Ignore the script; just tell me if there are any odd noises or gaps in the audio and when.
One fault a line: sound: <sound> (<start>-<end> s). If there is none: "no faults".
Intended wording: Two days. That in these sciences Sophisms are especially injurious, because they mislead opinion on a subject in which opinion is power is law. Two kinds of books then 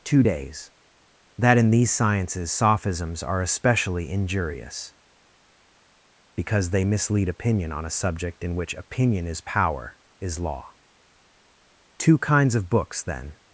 no faults